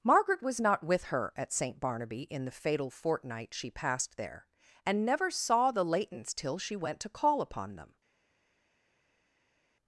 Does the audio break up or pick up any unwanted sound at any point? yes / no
no